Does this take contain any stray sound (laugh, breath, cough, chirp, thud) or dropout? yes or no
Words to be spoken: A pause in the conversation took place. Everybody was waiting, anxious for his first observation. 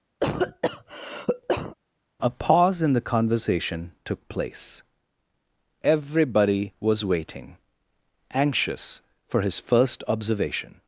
yes